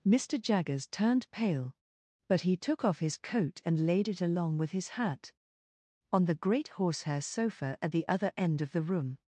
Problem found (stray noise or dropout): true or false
false